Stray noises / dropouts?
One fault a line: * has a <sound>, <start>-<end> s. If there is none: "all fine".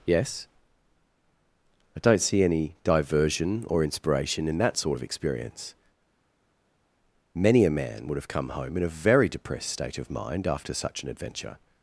all fine